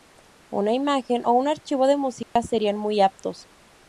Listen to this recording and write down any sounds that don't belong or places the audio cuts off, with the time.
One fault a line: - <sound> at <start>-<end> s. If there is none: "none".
- dropout at 2.2-2.4 s